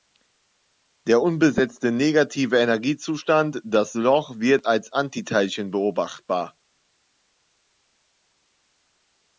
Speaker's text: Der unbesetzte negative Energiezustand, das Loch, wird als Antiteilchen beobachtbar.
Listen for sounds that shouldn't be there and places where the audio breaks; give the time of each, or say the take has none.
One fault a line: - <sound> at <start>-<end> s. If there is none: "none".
none